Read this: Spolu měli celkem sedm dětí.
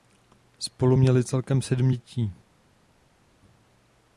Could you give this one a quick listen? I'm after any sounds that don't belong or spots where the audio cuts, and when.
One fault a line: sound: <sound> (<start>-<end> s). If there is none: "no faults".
no faults